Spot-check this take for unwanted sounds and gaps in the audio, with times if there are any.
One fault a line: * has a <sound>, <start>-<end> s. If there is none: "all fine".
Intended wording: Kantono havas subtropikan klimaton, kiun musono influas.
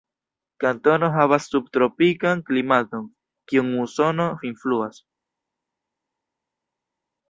all fine